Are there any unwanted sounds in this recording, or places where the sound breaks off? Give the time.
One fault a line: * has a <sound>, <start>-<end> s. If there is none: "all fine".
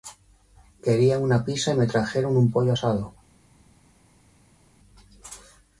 all fine